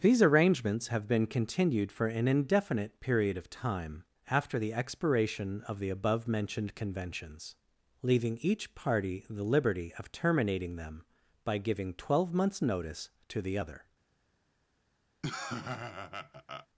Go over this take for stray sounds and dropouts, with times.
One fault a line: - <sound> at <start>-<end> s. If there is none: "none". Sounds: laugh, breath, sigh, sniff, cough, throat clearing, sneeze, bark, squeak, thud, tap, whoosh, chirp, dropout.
- laugh at 15.2-16.7 s